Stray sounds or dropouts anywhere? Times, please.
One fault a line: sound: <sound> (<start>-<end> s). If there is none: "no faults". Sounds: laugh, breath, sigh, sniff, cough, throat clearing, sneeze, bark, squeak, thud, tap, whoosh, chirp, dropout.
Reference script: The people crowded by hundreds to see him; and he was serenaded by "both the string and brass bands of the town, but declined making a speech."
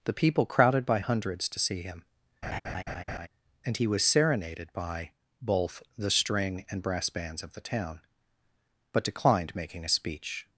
sound: laugh (2.4-3.3 s)